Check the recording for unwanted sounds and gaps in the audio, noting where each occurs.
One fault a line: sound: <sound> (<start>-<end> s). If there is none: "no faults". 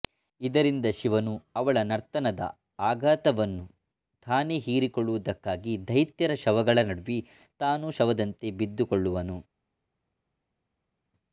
no faults